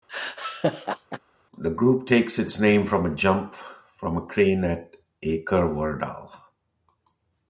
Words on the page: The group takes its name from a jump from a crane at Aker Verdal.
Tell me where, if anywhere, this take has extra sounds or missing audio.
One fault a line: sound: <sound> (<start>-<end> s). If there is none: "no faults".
sound: laugh (0.1-1.2 s)